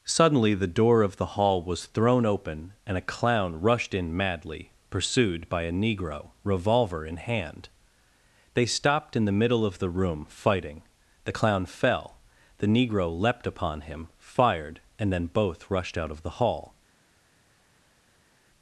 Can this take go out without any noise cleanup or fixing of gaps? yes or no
yes